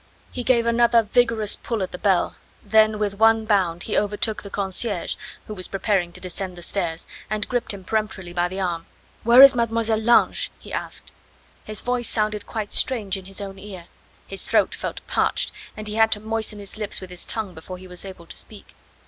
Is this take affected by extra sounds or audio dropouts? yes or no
no